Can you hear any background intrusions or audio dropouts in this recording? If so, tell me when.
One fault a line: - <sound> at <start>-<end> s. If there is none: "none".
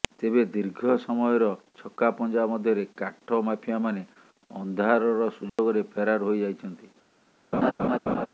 - dropout at 5.5-5.6 s
- laugh at 7.5-8.3 s